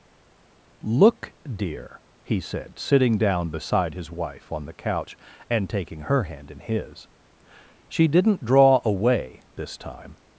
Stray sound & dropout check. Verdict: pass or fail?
pass